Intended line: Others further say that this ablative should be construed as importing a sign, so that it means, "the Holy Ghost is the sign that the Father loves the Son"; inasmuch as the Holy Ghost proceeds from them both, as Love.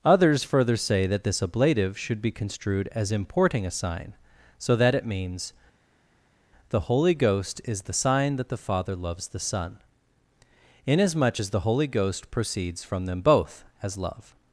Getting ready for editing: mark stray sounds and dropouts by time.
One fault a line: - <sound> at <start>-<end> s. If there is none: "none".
none